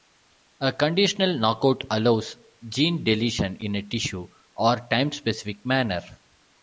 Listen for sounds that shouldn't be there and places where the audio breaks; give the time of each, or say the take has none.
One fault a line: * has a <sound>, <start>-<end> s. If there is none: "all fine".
all fine